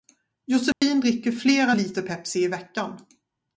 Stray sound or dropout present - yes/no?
yes